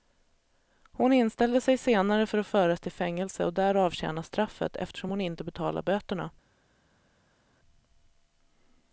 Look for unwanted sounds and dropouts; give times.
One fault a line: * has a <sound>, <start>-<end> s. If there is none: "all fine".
all fine